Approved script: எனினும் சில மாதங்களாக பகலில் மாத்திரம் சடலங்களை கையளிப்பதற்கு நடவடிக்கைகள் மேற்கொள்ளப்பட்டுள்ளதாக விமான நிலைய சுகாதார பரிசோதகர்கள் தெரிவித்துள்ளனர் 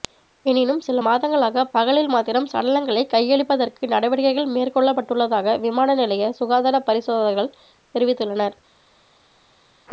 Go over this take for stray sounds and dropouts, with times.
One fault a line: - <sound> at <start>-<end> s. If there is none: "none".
none